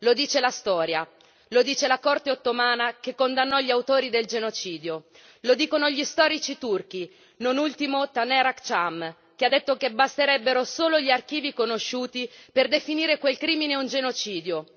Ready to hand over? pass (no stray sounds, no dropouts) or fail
pass